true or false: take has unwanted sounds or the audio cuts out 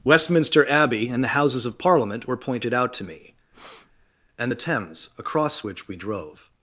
true